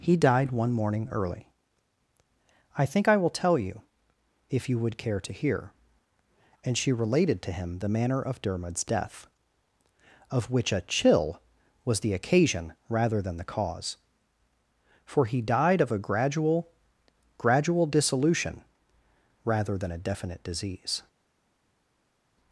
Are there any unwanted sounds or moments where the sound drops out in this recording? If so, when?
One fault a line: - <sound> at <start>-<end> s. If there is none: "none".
none